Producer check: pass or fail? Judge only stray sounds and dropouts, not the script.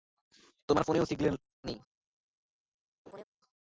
fail